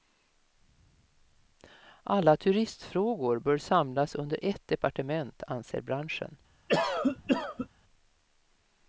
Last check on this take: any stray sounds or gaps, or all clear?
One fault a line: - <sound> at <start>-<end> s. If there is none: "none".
- cough at 6.7-7.7 s